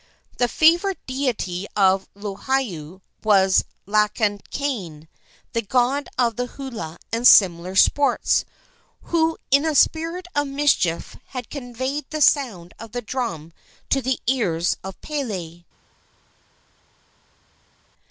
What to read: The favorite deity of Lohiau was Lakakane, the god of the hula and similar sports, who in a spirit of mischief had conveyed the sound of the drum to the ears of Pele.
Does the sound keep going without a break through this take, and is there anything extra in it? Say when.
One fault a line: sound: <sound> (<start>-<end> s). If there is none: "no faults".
no faults